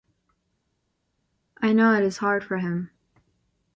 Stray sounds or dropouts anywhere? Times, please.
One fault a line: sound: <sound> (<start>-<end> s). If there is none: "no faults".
no faults